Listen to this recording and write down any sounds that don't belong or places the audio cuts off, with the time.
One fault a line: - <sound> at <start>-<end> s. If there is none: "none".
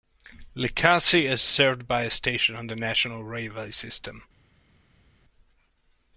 none